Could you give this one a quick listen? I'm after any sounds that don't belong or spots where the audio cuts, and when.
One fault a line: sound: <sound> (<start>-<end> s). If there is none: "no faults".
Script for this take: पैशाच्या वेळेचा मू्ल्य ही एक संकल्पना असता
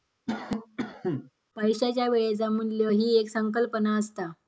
sound: cough (0.3-1.3 s)